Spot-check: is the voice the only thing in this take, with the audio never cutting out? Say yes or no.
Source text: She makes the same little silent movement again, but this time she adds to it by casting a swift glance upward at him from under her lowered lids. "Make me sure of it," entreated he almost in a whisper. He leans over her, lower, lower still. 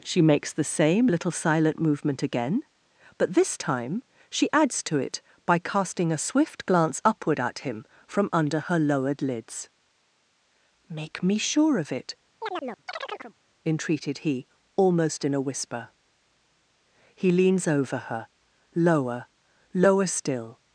no